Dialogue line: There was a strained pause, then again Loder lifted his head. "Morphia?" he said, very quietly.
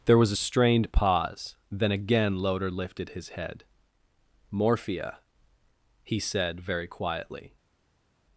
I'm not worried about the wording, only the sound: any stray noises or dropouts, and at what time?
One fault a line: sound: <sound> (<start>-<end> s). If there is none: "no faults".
no faults